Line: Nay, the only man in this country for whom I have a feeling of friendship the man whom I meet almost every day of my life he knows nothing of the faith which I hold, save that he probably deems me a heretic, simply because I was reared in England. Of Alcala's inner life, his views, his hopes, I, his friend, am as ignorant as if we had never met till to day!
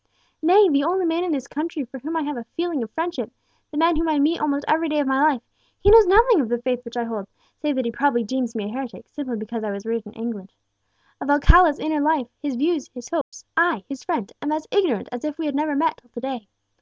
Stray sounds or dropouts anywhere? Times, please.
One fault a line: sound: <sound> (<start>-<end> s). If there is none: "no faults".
sound: dropout (13.2-13.3 s)